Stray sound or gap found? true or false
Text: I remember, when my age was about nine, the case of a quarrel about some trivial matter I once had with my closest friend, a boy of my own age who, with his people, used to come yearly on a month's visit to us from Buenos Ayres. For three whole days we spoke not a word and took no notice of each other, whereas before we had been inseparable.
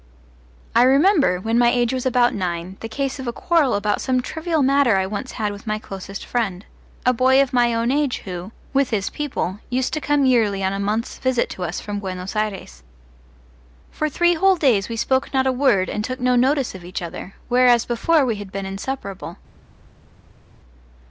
false